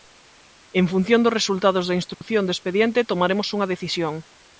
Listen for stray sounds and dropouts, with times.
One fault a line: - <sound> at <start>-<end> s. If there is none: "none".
- dropout at 2.1-2.2 s